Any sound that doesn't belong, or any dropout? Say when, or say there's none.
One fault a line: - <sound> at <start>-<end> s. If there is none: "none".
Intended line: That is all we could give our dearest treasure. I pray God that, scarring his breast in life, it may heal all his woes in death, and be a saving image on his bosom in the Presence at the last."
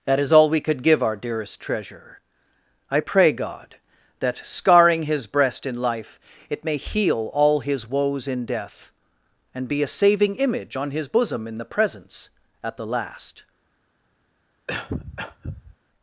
- cough at 14.7-15.8 s